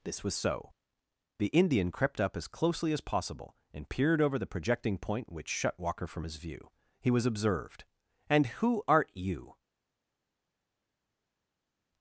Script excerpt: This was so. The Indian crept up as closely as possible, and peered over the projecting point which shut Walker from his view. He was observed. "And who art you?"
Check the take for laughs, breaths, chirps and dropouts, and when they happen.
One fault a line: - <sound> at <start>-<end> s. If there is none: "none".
none